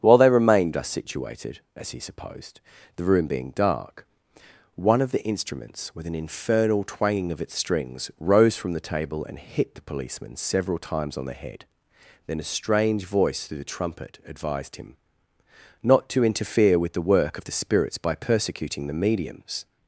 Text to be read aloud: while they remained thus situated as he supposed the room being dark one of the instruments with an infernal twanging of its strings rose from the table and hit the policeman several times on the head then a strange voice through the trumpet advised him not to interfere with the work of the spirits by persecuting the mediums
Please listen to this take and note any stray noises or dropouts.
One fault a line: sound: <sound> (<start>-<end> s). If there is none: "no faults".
no faults